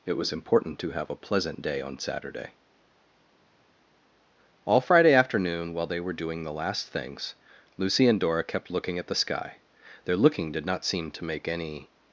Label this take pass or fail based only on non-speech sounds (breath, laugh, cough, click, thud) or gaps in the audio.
pass